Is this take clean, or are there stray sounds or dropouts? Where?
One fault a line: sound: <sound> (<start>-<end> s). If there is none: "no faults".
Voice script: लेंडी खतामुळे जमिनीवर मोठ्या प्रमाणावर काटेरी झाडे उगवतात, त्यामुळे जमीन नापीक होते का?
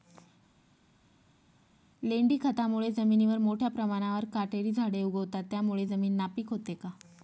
no faults